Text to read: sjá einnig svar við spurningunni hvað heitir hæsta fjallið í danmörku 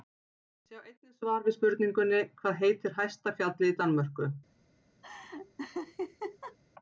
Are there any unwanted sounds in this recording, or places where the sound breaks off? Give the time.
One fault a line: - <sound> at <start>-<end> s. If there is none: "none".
- laugh at 5.0-6.6 s